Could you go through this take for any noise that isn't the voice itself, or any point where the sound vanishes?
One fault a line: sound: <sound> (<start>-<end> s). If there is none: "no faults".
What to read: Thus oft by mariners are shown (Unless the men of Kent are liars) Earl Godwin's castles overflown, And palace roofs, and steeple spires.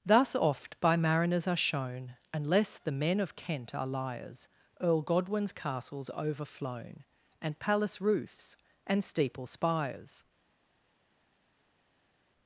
no faults